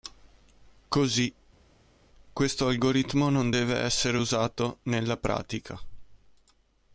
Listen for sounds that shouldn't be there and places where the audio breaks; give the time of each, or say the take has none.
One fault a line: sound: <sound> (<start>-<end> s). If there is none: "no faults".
no faults